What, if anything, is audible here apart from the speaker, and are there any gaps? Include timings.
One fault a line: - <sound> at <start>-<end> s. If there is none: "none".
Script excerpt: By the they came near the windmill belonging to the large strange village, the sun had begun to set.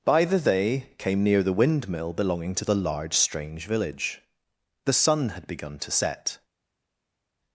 none